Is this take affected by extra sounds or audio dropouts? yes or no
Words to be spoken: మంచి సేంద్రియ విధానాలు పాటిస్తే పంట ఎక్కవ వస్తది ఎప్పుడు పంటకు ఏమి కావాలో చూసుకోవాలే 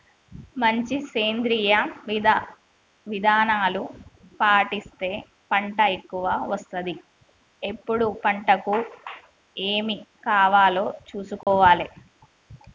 yes